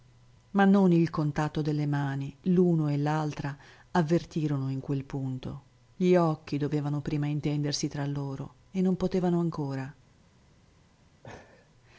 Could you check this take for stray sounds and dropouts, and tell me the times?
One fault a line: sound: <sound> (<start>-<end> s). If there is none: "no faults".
sound: laugh (11.2-11.7 s)